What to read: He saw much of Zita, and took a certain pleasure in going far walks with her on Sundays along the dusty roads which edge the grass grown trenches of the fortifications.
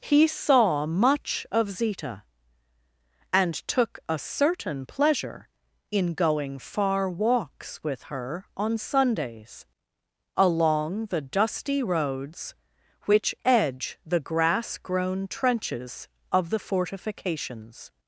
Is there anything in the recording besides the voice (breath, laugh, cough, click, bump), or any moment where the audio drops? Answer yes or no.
no